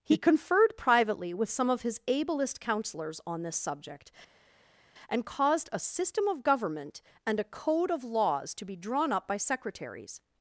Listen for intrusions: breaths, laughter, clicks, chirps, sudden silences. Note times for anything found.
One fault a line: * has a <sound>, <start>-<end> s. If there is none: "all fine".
all fine